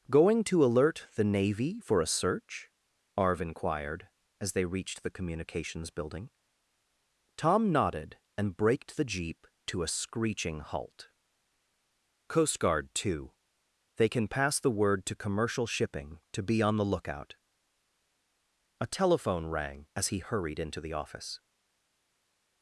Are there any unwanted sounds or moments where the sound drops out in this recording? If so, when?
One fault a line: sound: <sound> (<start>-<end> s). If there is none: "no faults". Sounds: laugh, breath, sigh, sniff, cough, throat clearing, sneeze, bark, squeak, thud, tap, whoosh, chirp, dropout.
no faults